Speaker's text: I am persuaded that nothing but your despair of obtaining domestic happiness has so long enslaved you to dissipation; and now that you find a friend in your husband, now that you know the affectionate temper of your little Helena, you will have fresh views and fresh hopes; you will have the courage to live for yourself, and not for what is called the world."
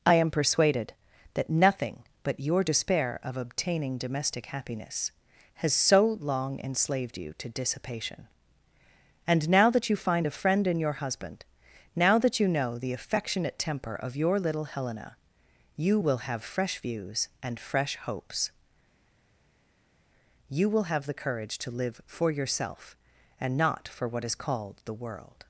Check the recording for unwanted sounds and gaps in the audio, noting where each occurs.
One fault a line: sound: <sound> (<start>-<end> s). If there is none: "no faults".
no faults